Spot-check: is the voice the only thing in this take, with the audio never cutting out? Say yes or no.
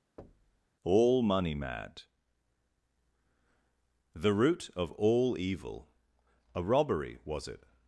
no